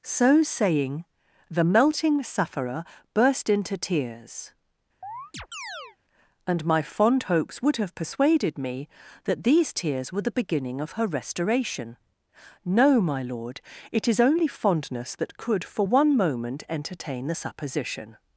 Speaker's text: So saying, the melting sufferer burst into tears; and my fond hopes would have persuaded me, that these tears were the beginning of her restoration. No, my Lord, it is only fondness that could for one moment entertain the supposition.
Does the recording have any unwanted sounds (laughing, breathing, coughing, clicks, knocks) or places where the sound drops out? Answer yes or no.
yes